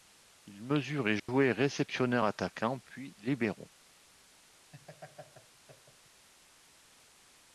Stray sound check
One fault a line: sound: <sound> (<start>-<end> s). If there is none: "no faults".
sound: dropout (1.2-1.3 s)
sound: laugh (4.7-6.3 s)